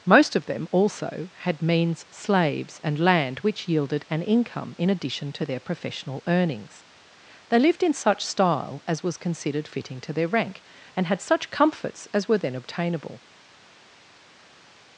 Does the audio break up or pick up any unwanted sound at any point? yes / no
no